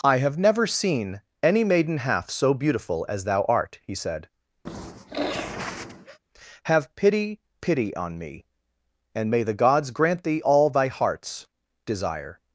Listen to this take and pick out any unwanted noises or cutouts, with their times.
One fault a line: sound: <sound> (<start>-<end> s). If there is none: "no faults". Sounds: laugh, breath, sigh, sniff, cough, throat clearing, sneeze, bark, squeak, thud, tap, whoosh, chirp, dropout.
sound: sniff (4.7-6.2 s)